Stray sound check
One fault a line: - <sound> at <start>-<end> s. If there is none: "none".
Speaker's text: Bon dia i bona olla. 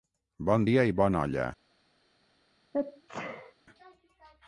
- sneeze at 2.7-3.5 s